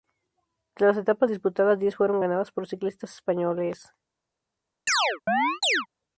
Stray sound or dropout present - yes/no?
yes